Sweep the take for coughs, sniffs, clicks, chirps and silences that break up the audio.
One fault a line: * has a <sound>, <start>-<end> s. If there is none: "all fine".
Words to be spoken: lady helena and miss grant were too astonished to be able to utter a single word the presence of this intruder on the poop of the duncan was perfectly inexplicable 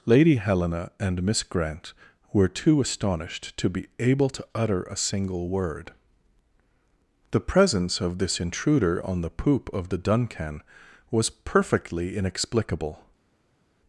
all fine